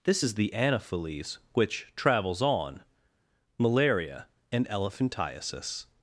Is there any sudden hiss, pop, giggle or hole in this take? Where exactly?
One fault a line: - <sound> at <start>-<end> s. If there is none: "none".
none